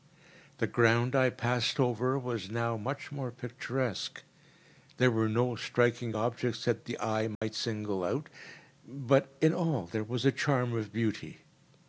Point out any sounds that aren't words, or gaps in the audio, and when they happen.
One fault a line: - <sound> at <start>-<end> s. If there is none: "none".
- dropout at 7.3-7.4 s